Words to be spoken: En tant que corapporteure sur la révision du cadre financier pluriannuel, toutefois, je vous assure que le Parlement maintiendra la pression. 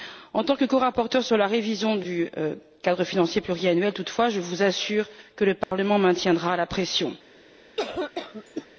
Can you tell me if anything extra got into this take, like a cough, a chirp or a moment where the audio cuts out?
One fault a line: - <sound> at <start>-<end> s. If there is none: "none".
- dropout at 5.6-5.7 s
- cough at 7.8-8.7 s